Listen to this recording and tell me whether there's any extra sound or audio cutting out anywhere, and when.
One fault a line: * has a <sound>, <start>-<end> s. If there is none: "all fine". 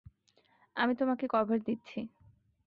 all fine